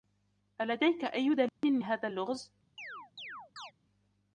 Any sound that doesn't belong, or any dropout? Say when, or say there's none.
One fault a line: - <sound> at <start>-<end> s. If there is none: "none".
- dropout at 1.5-1.6 s
- chirp at 2.8-3.7 s